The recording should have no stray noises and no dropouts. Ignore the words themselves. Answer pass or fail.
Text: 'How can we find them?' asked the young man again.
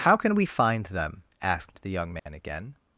fail